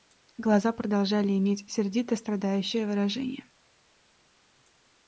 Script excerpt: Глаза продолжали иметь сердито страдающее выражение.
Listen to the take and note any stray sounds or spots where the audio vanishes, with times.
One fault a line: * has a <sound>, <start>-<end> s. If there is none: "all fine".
all fine